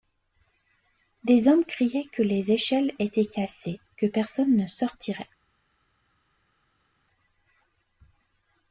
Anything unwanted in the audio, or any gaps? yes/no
no